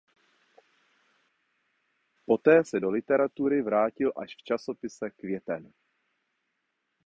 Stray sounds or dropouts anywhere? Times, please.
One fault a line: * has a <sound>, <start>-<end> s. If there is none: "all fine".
all fine